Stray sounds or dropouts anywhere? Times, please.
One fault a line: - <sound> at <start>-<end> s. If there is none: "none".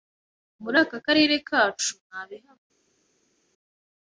none